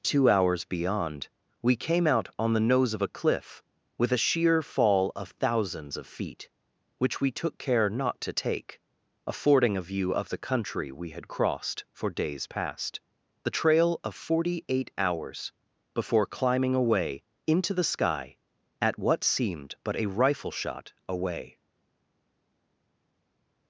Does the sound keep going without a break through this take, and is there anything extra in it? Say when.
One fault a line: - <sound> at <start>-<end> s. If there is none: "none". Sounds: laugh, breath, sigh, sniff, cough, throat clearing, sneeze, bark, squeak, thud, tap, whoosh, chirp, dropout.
none